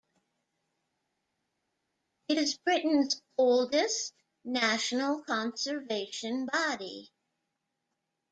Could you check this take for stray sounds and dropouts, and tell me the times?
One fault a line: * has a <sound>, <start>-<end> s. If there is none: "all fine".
all fine